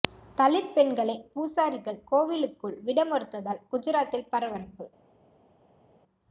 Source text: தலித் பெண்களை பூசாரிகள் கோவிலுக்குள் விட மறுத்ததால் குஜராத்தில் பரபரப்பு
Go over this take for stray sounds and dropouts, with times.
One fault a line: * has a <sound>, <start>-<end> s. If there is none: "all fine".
all fine